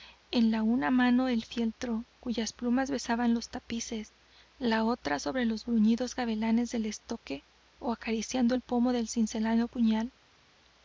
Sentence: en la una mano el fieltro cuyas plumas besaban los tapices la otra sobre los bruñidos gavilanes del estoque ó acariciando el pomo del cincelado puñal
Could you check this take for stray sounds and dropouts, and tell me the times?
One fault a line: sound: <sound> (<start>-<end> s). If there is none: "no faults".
no faults